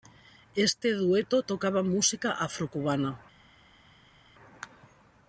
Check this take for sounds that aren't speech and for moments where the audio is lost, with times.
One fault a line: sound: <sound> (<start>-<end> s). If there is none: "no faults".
no faults